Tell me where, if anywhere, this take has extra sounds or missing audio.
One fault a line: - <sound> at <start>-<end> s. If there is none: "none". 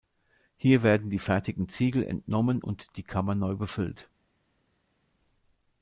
none